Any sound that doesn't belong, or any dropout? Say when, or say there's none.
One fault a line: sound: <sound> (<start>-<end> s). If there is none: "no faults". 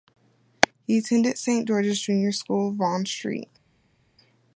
no faults